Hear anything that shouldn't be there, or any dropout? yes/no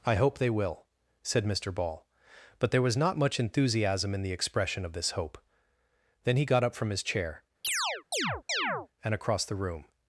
yes